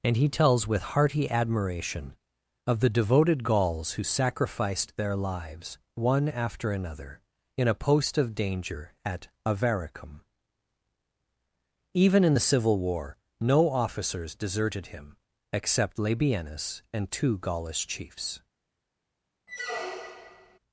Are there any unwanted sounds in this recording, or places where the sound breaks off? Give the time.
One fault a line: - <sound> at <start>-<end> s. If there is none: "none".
- squeak at 19.5-20.6 s